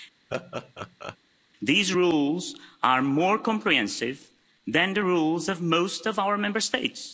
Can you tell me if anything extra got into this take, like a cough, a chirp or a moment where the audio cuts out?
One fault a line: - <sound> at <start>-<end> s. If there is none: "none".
- laugh at 0.3-1.2 s